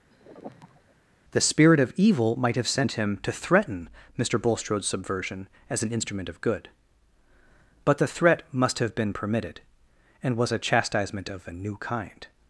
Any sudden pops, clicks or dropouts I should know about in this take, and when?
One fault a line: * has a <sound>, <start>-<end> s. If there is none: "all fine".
* has a sigh, 0.1-0.9 s